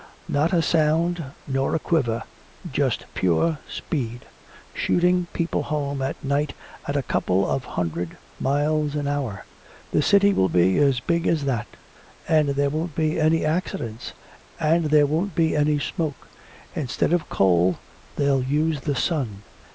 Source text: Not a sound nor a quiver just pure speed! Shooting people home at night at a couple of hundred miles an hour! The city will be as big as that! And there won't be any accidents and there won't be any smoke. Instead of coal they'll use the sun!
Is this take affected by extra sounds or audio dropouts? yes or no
no